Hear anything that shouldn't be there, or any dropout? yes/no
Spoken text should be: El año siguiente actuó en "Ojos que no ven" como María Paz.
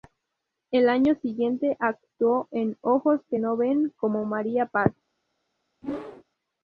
yes